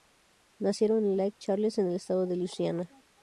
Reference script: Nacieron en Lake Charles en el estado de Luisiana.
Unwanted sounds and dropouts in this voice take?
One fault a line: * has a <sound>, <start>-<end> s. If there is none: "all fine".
all fine